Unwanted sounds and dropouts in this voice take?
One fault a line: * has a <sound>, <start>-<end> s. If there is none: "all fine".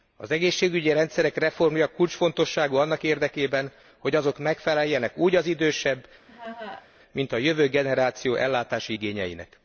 * has a laugh, 6.3-6.9 s